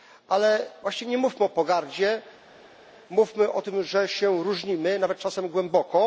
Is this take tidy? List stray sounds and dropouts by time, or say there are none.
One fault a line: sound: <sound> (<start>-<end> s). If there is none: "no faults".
no faults